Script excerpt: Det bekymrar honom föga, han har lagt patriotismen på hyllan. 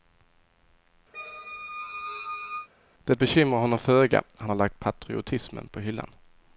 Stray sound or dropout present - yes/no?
yes